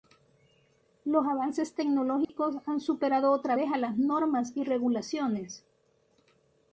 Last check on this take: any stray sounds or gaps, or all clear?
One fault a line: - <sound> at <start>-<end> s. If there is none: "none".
- dropout at 2.2-2.3 s